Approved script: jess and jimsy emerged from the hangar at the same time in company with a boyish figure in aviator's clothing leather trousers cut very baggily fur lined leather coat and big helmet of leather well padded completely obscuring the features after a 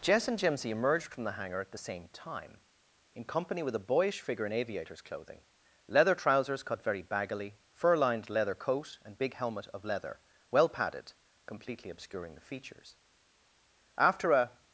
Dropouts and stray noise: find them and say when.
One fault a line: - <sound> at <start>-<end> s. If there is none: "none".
none